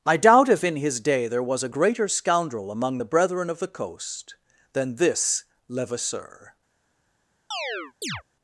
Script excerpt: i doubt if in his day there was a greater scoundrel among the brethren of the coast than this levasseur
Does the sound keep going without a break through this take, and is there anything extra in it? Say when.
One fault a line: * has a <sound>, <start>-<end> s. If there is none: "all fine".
* has a chirp, 7.5-8.2 s